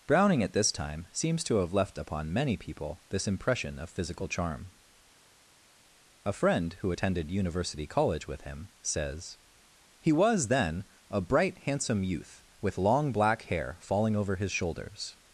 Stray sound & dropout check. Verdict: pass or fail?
pass